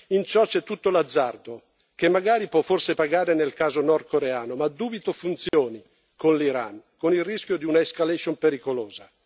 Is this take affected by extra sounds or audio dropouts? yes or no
yes